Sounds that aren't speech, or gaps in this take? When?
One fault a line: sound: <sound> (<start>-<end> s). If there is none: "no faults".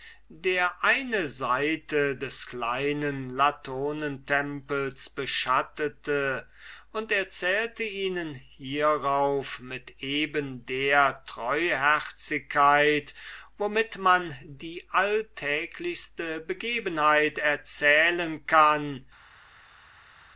no faults